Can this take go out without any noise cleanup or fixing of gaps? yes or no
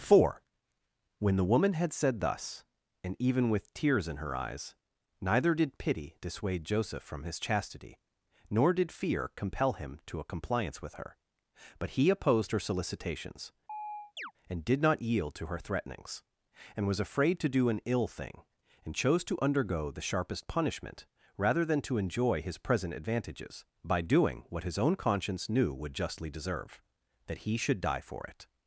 no